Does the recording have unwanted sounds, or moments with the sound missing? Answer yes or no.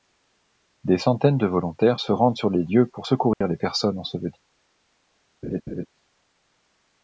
yes